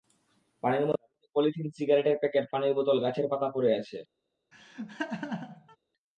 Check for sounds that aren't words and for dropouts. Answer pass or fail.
fail